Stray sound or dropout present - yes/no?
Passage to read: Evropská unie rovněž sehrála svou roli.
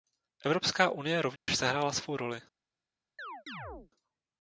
yes